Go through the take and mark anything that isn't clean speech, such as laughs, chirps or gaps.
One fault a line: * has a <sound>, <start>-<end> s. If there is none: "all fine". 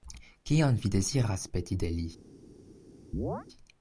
* has a chirp, 3.1-3.5 s